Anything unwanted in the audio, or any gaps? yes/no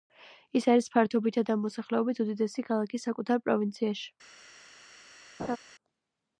yes